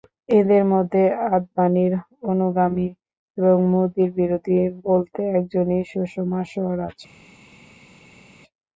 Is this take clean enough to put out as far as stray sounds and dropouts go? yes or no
yes